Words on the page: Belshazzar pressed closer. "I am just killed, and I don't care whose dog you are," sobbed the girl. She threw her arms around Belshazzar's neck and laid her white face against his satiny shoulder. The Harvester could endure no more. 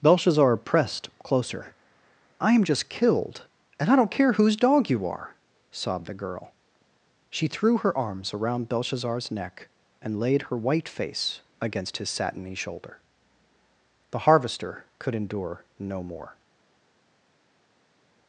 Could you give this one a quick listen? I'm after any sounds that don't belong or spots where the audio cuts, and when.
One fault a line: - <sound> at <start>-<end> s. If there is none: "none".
none